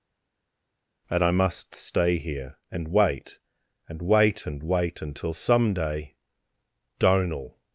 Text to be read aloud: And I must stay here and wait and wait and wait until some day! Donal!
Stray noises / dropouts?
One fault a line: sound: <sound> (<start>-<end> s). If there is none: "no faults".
no faults